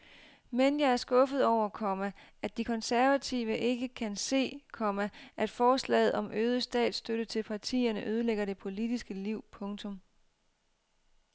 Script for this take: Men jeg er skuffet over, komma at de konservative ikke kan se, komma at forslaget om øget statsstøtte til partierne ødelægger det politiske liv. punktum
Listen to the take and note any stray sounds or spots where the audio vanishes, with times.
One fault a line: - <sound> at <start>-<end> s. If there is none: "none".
none